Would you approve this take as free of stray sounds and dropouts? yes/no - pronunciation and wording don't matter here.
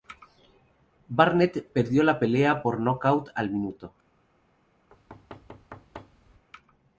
no